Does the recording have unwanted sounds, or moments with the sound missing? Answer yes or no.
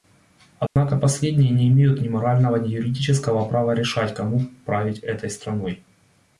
yes